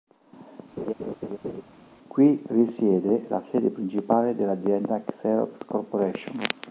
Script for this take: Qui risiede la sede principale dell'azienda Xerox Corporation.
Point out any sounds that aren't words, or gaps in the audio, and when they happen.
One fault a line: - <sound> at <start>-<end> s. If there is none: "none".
- laugh at 0.8-1.6 s